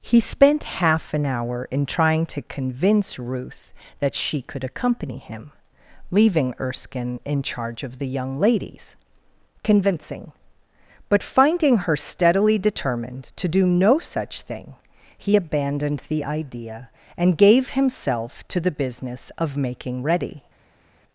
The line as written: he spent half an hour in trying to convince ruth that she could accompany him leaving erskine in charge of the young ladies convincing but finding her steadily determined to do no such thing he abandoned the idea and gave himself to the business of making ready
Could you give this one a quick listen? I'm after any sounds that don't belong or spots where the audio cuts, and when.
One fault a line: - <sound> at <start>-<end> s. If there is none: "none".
none